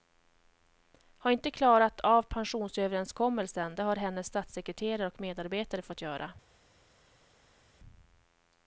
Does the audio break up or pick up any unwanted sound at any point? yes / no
no